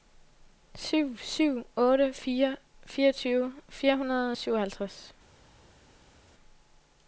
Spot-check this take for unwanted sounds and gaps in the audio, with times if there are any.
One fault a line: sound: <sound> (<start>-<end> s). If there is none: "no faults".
no faults